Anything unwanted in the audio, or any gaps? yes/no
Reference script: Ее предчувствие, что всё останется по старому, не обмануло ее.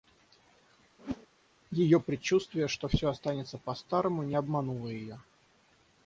yes